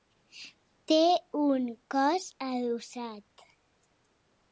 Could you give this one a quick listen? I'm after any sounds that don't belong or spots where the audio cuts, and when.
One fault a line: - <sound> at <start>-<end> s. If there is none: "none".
none